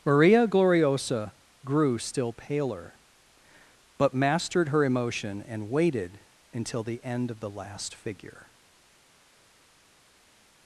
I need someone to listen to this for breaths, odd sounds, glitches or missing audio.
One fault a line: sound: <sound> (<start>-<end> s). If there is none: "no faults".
no faults